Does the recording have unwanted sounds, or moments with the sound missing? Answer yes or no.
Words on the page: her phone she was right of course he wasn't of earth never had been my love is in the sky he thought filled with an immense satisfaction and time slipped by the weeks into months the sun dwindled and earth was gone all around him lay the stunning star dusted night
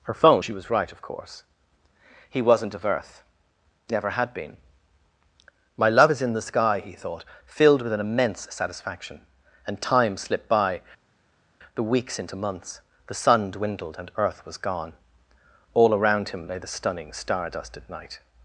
no